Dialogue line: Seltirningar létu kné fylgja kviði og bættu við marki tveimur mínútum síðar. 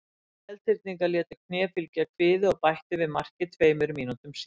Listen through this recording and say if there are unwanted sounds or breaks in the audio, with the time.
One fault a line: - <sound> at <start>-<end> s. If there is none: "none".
none